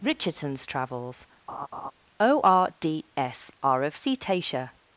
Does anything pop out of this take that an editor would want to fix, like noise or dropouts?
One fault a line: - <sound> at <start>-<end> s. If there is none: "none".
- laugh at 1.5-1.9 s